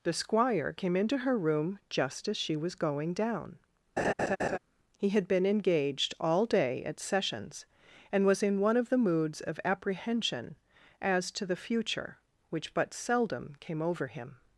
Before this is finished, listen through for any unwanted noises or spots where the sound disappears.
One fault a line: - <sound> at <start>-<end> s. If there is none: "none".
- laugh at 4.0-4.6 s